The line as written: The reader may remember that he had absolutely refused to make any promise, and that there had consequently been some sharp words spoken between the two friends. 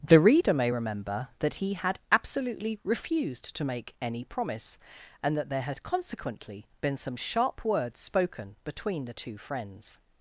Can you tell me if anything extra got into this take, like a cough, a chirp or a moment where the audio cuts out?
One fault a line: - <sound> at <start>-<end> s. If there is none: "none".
none